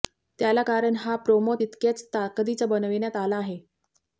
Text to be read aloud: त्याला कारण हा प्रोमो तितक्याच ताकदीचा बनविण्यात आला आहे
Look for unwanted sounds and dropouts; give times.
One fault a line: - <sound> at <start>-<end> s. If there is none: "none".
none